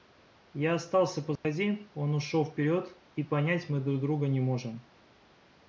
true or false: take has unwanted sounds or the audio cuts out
true